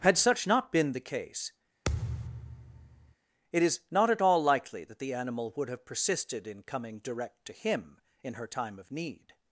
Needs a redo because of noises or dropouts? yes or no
yes